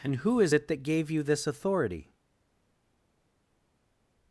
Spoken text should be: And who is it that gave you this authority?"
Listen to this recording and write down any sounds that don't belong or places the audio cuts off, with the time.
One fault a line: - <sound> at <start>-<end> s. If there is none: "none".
none